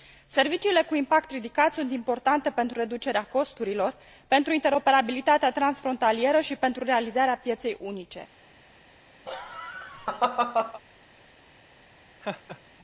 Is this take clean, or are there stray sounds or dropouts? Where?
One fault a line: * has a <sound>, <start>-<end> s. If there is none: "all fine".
* has a laugh, 9.3-10.8 s
* has a laugh, 12.2-12.6 s